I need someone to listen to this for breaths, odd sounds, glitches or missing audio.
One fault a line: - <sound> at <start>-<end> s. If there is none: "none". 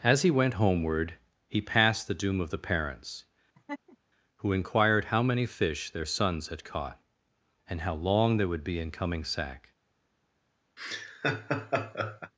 - laugh at 3.5-4.0 s
- laugh at 10.8-12.3 s